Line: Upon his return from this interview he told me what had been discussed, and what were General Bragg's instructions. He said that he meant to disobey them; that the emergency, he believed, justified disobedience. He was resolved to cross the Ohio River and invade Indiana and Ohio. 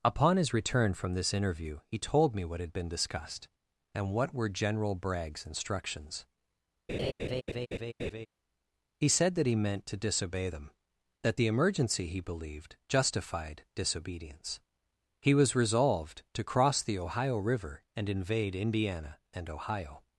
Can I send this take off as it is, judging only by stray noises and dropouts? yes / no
no